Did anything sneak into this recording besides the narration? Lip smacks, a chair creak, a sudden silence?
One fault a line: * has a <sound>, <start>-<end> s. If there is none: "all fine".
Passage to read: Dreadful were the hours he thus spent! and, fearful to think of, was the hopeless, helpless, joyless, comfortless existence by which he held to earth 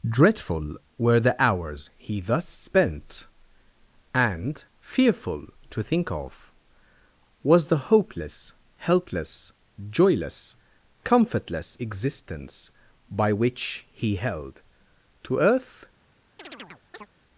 * has a chirp, 16.4-17.1 s